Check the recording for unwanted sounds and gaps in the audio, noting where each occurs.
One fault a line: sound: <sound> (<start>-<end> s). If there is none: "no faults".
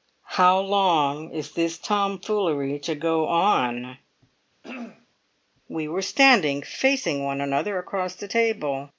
sound: throat clearing (4.6-5.1 s)